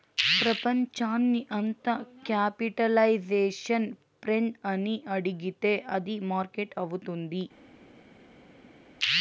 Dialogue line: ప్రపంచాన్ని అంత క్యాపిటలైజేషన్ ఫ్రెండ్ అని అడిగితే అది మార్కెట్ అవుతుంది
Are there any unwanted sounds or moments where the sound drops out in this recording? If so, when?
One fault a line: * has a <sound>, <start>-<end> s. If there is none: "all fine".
all fine